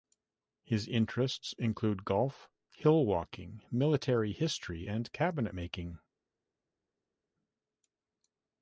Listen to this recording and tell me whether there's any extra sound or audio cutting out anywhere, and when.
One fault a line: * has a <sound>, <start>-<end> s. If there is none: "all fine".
all fine